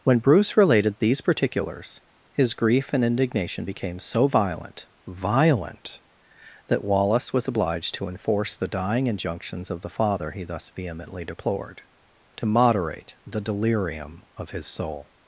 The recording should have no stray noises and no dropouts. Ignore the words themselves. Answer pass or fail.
pass